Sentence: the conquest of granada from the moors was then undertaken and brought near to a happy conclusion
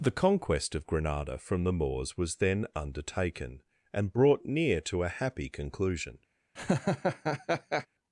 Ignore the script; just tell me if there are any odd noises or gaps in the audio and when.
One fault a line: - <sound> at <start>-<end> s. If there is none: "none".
- laugh at 6.6-7.9 s